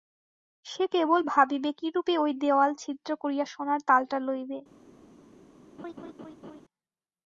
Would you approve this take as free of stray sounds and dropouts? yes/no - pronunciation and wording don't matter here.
no